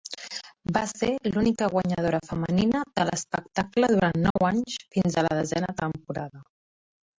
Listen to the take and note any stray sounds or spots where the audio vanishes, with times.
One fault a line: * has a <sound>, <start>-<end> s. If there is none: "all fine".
* has a dropout, 4.3-4.4 s